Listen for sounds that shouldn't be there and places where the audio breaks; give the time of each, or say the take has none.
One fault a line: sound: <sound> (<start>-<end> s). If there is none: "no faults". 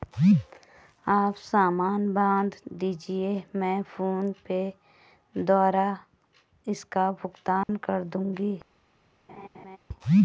sound: dropout (7.6-7.7 s)
sound: laugh (9.3-9.8 s)